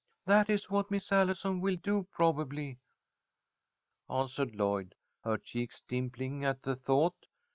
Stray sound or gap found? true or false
false